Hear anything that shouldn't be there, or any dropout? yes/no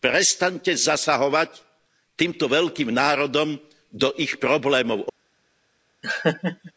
yes